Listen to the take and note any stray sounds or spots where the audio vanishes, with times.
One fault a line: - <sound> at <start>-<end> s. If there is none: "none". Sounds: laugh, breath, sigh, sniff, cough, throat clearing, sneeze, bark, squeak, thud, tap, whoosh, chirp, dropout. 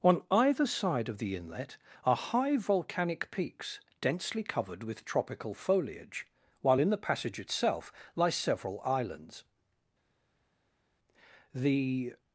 none